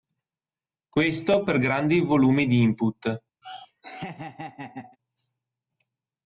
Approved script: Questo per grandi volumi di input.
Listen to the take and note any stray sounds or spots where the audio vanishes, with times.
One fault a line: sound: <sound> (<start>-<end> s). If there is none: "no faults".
sound: laugh (3.4-5.0 s)